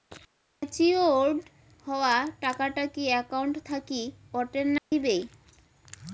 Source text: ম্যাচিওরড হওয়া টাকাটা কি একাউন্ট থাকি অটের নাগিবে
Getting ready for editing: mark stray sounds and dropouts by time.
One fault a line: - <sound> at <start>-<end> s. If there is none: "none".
- dropout at 4.8-4.9 s